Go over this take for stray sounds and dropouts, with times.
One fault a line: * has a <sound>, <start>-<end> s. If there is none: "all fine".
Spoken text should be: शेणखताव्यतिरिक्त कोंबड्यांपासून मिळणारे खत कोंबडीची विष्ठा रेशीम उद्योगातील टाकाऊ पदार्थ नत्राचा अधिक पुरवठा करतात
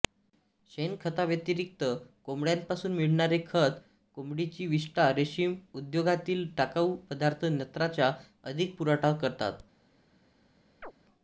* has a chirp, 10.8-10.9 s